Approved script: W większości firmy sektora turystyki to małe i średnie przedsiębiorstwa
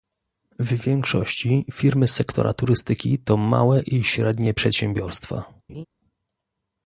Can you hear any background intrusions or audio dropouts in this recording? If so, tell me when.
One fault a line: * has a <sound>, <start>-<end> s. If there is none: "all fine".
* has a laugh, 5.7-5.9 s